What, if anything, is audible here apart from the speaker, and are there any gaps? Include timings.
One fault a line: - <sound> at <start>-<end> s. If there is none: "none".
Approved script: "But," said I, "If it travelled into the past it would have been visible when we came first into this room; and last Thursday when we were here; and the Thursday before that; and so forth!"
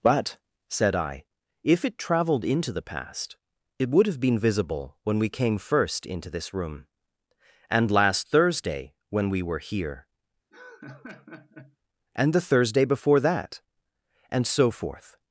- laugh at 10.5-11.8 s